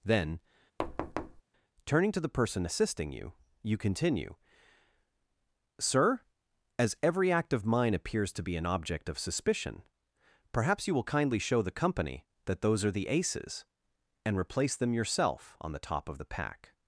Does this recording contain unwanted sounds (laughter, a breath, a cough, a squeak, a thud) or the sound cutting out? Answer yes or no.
yes